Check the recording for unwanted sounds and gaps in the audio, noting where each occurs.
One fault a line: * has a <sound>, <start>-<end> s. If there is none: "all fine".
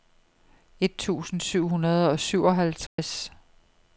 * has a dropout, 2.9-3.0 s